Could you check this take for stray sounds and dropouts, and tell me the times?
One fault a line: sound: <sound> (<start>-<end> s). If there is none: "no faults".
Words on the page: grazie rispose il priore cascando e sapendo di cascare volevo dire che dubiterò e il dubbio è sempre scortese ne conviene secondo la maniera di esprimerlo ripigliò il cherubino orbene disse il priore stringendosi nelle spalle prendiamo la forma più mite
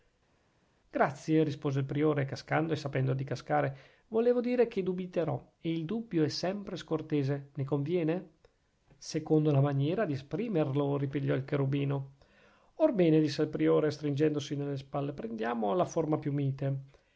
no faults